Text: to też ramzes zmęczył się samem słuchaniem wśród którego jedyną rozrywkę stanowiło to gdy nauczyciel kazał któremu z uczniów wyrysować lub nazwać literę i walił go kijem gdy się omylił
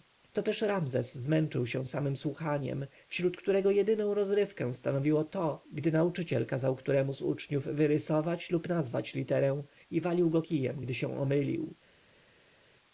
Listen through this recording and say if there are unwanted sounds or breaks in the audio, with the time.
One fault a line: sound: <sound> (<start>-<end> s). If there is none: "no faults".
no faults